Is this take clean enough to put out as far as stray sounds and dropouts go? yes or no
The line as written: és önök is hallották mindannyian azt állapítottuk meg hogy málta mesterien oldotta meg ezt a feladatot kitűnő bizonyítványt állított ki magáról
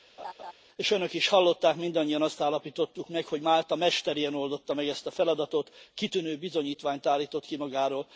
no